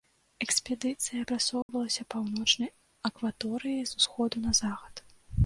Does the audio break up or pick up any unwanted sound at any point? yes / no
yes